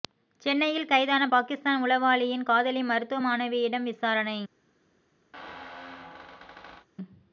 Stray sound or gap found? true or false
true